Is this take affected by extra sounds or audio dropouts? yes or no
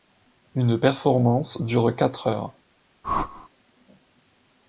yes